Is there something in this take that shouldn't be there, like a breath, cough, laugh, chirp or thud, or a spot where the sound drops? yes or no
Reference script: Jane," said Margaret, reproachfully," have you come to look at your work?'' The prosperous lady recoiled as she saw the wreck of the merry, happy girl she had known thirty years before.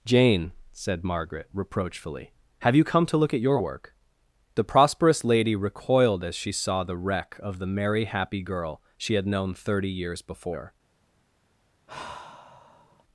yes